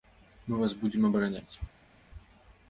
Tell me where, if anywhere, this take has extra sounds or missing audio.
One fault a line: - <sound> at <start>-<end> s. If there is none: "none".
none